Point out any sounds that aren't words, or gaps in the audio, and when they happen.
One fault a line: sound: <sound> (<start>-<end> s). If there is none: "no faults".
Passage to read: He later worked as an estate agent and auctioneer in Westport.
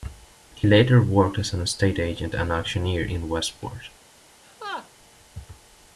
sound: laugh (4.4-4.9 s)